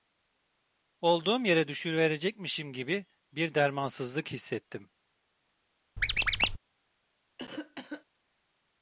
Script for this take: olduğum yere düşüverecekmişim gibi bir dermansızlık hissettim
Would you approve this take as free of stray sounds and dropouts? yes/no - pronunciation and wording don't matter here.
no